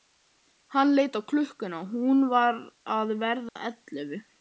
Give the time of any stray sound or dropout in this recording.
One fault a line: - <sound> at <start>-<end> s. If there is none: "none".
- dropout at 3.5-3.6 s